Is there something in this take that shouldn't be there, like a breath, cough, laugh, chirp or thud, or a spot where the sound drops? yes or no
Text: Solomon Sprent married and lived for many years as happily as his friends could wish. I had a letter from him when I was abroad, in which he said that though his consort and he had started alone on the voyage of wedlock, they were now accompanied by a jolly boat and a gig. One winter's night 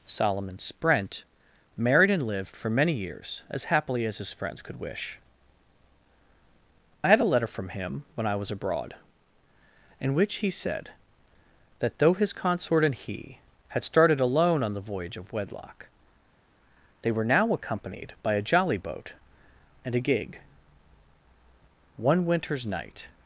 no